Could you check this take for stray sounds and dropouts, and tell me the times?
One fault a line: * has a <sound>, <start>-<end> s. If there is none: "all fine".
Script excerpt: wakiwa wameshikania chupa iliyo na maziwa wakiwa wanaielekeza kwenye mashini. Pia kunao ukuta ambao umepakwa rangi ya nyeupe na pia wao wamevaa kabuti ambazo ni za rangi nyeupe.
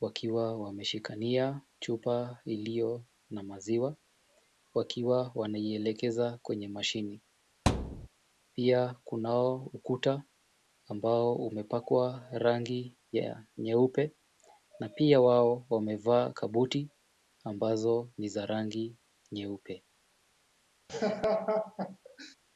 * has a thud, 7.7-8.1 s
* has a laugh, 20.9-22.4 s